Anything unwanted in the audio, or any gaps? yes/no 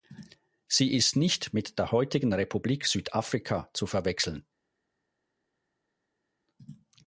no